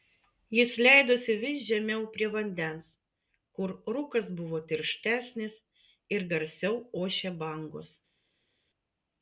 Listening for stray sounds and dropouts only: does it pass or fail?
pass